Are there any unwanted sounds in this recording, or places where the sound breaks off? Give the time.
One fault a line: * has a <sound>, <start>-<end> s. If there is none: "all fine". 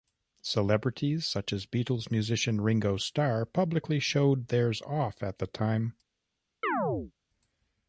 * has a chirp, 6.6-7.1 s